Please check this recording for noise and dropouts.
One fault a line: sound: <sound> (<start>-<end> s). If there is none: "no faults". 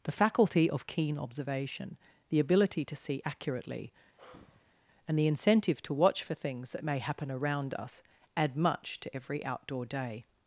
sound: sigh (4.2-4.8 s)